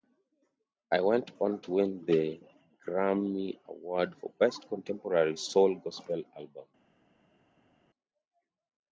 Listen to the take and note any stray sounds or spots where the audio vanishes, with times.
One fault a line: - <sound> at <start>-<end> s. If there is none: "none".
none